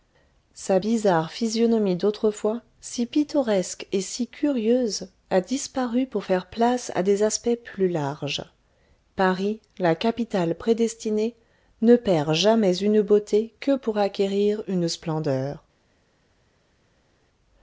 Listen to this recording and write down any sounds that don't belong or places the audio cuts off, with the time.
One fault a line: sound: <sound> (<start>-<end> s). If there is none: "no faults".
no faults